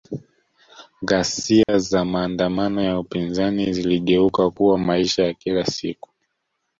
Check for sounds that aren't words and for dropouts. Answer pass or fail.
fail